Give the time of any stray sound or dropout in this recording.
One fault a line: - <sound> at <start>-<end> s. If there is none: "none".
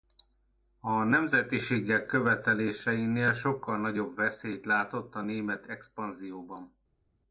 none